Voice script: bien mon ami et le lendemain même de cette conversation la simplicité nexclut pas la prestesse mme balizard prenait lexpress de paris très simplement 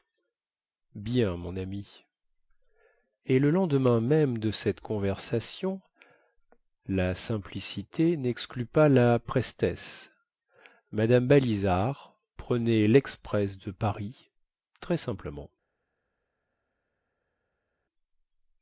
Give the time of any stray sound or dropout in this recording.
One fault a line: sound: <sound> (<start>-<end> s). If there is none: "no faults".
no faults